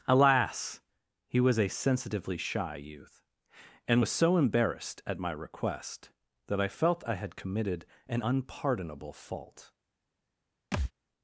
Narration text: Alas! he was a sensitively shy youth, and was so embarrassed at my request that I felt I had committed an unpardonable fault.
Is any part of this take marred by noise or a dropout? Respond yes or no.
yes